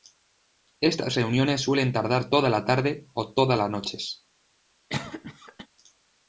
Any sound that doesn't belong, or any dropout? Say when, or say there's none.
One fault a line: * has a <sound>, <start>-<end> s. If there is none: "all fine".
* has a cough, 4.9-5.7 s